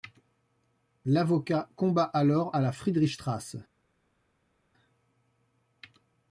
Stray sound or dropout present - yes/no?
no